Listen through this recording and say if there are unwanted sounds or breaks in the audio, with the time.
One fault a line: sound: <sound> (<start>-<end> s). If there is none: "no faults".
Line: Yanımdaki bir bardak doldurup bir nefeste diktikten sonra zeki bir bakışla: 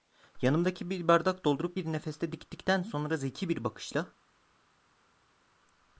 no faults